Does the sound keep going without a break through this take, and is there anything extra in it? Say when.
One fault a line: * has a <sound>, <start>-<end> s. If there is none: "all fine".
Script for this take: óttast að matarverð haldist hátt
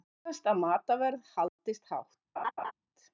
* has a dropout, 1.5-1.6 s
* has a laugh, 2.4-2.7 s